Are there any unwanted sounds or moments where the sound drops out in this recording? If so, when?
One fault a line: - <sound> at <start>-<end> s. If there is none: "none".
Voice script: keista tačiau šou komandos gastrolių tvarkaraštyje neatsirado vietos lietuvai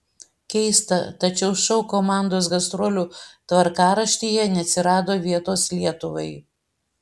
none